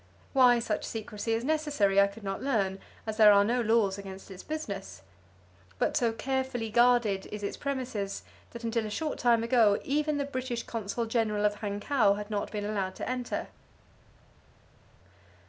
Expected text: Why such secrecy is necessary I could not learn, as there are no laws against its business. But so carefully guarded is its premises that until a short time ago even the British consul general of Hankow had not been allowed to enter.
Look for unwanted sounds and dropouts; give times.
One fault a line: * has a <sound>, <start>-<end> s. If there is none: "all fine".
all fine